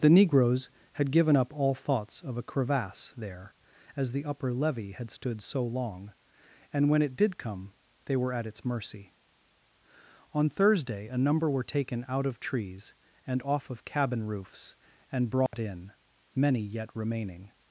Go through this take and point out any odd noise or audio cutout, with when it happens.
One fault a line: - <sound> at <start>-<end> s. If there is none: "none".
- dropout at 15.5-15.5 s